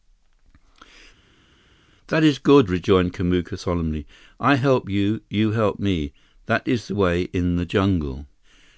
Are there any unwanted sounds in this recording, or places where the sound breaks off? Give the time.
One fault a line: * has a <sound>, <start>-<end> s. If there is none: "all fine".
all fine